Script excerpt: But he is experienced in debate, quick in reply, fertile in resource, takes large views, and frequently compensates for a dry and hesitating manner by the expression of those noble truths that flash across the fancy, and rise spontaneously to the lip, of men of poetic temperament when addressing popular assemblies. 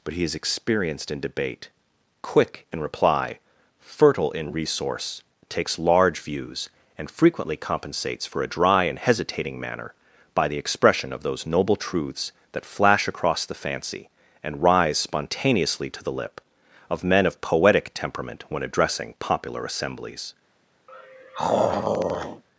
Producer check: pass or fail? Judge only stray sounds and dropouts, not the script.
fail